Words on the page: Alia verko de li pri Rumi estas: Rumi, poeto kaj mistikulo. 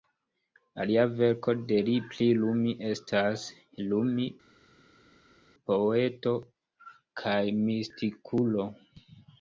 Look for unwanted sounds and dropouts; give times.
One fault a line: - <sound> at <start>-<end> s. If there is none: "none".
none